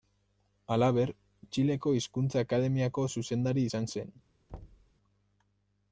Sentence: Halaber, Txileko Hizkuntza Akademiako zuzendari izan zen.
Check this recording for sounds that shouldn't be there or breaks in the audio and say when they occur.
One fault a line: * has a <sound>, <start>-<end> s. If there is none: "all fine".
* has a thud, 4.5-4.9 s